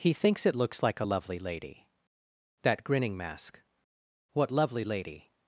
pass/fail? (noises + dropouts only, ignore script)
pass